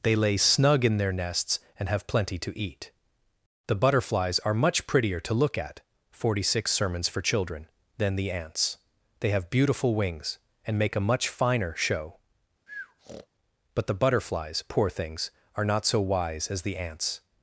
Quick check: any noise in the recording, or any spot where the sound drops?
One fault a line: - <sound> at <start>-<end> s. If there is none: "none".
- breath at 12.7-13.3 s